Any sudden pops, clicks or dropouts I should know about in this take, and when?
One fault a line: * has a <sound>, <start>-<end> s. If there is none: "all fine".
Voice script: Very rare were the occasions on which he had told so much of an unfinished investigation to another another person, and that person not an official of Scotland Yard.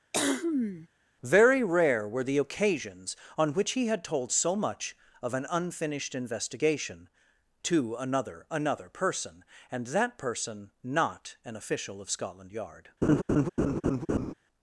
* has a cough, 0.1-0.9 s
* has a laugh, 13.0-14.3 s